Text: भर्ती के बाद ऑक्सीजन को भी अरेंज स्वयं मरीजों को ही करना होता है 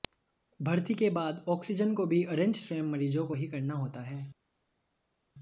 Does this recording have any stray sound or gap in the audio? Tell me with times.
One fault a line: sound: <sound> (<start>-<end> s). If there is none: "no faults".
no faults